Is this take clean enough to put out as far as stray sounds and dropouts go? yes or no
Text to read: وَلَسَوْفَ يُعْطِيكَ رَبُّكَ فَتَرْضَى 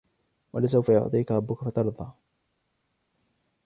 yes